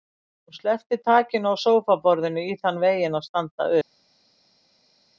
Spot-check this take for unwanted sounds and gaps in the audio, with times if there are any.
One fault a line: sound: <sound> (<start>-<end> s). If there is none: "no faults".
no faults